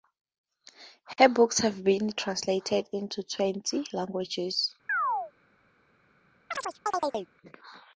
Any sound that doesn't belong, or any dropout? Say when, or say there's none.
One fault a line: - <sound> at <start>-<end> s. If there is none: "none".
- chirp at 4.9-5.3 s
- chirp at 6.5-7.3 s